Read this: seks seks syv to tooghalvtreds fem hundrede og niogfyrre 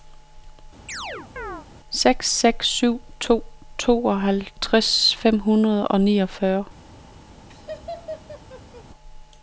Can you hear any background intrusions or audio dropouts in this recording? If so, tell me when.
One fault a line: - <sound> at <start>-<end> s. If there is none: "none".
- chirp at 0.9-1.7 s
- laugh at 7.5-8.9 s